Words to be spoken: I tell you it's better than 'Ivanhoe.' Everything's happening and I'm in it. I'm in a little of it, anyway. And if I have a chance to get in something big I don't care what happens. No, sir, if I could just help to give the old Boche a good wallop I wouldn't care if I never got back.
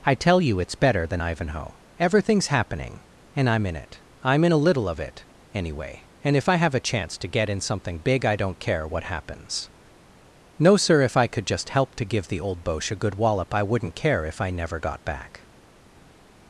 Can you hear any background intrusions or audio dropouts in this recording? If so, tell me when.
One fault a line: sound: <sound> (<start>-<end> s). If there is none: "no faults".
no faults